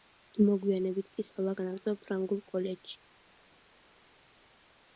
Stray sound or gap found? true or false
false